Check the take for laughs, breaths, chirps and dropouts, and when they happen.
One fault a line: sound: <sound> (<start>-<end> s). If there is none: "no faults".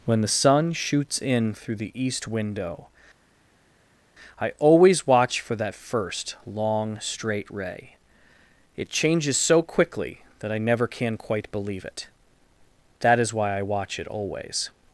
no faults